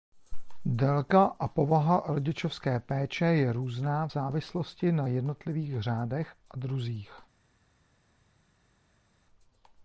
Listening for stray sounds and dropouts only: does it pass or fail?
pass